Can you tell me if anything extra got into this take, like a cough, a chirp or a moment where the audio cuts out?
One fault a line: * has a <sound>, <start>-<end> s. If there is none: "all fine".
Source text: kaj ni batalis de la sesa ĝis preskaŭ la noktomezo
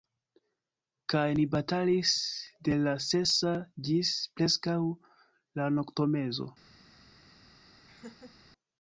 * has a laugh, 7.9-8.4 s